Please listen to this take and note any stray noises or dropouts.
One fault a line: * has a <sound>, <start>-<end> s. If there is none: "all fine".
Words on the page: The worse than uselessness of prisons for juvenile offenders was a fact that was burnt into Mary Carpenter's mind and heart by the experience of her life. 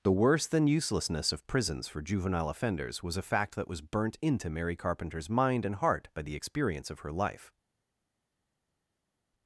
all fine